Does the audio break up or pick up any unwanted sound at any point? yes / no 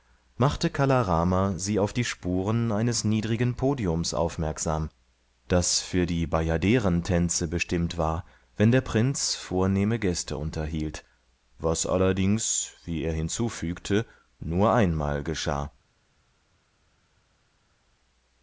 no